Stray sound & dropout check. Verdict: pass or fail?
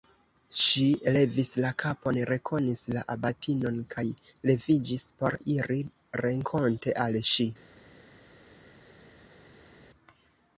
pass